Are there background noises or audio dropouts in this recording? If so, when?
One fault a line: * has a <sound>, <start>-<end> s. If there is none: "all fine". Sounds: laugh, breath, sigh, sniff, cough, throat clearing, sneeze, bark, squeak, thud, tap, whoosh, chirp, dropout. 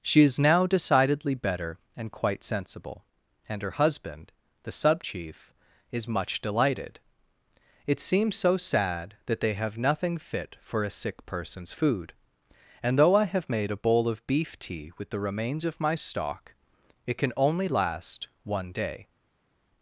all fine